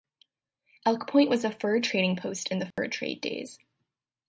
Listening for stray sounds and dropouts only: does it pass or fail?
fail